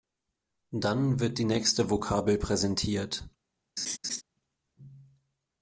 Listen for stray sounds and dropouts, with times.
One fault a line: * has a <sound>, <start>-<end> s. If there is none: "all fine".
* has a laugh, 3.8-4.2 s